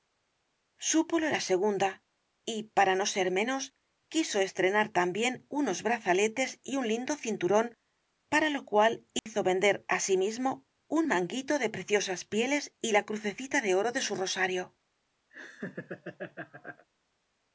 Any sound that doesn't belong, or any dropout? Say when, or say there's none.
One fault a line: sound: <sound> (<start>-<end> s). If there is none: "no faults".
sound: dropout (9.2-9.3 s)
sound: laugh (15.3-16.9 s)